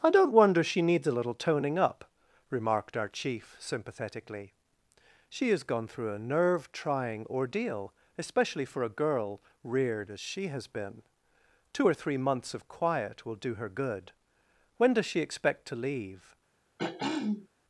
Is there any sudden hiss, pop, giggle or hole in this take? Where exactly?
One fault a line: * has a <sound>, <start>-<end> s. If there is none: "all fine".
* has a throat clearing, 16.8-17.5 s